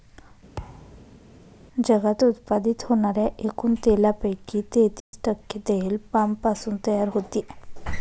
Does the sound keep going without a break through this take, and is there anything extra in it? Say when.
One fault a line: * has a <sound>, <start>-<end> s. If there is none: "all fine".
* has a thud, 0.6-1.2 s
* has a dropout, 5.0-5.1 s